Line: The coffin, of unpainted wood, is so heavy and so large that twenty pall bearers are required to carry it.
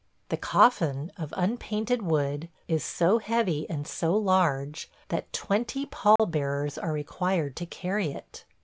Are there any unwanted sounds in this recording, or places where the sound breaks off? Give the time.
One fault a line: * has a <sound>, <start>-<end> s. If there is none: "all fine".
* has a dropout, 6.2-6.2 s